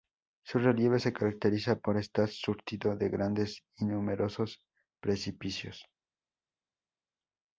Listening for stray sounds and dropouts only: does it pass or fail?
pass